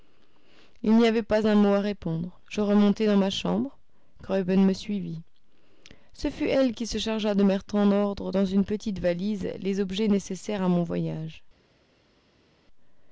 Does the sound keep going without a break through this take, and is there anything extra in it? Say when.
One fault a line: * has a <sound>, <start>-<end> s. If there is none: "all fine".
all fine